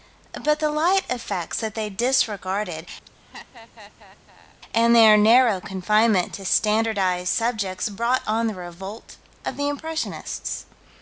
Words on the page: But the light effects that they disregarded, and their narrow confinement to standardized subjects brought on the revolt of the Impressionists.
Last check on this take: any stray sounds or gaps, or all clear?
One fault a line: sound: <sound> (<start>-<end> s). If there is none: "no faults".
sound: laugh (3.1-4.6 s)